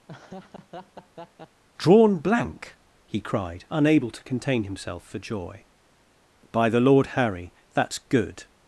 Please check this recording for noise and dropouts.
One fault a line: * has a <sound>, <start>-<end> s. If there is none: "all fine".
* has a laugh, 0.1-1.6 s